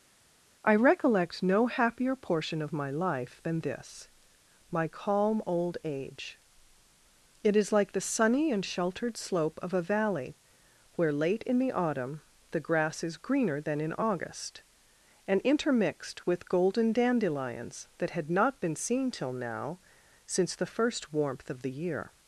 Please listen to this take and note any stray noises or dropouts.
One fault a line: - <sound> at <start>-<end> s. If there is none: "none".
none